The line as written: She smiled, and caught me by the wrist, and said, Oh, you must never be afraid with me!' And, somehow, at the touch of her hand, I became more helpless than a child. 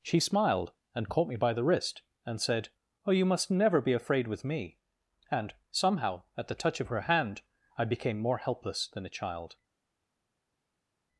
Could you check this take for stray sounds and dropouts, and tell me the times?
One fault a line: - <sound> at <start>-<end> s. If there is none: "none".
none